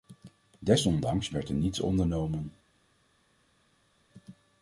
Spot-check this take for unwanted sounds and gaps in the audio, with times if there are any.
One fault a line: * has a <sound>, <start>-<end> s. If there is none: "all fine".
all fine